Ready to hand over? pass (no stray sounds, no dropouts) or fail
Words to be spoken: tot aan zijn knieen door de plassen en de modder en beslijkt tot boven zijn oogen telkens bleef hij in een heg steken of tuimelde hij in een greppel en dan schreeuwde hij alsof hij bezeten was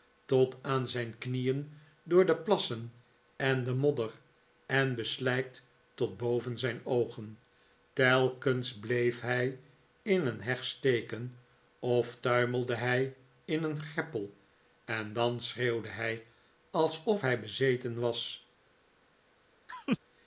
fail